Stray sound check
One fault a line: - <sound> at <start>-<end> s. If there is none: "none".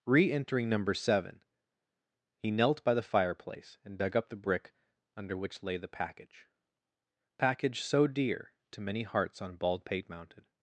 none